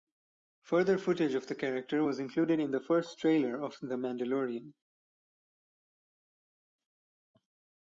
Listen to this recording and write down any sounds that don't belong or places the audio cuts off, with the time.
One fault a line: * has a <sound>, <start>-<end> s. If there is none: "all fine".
all fine